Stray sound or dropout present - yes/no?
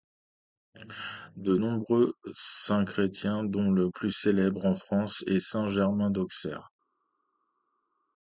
no